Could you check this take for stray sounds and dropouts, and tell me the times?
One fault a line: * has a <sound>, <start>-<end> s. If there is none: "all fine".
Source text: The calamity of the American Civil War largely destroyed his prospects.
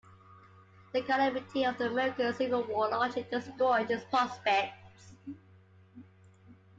all fine